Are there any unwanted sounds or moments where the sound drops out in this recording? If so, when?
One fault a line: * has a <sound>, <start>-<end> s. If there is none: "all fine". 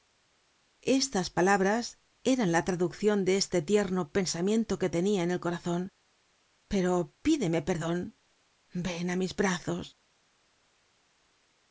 all fine